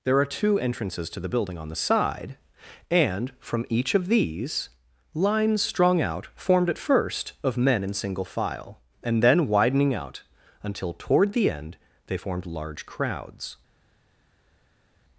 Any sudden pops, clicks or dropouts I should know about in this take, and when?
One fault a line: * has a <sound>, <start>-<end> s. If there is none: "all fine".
all fine